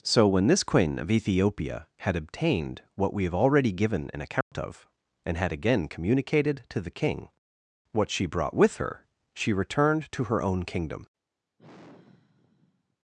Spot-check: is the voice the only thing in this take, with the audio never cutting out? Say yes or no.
no